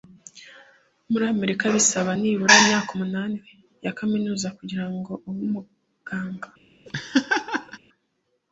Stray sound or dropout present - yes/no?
yes